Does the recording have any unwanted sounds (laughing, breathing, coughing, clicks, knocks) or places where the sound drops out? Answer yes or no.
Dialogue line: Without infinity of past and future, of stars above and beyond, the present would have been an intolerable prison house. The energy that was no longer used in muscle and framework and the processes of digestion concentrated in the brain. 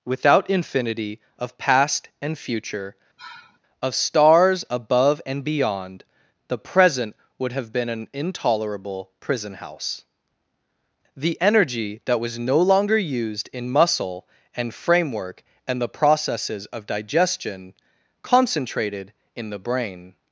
yes